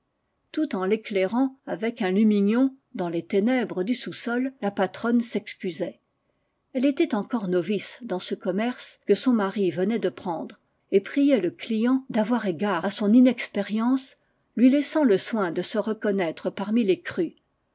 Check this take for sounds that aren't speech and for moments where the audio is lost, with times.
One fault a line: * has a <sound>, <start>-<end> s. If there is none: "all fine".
all fine